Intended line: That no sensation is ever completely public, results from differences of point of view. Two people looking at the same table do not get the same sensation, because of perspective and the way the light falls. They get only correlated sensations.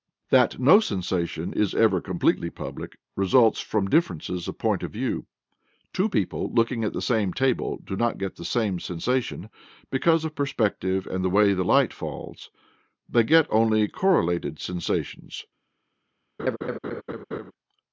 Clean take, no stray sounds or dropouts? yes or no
no